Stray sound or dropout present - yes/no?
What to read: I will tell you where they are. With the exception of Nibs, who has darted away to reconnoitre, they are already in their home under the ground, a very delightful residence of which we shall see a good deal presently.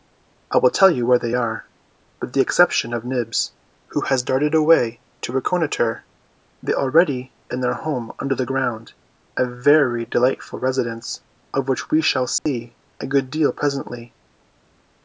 yes